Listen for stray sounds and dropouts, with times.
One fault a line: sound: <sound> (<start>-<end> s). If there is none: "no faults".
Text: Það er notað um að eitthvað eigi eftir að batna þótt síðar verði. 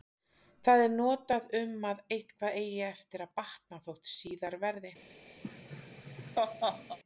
sound: laugh (5.4-7.0 s)